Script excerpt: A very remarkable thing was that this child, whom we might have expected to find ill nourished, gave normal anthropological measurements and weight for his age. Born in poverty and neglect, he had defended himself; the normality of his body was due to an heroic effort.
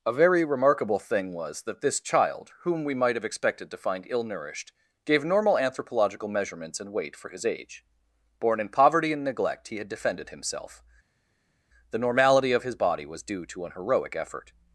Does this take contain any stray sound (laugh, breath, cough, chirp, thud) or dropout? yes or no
no